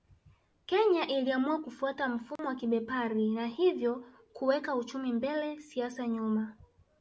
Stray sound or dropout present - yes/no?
yes